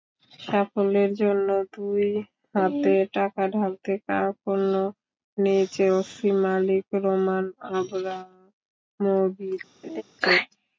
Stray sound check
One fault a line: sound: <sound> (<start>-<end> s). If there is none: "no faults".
sound: laugh (9.8-10.0 s)